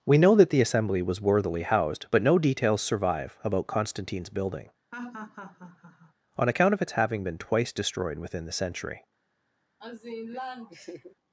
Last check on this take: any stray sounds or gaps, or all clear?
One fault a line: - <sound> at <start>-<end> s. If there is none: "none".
- laugh at 4.9-6.1 s
- laugh at 9.8-11.2 s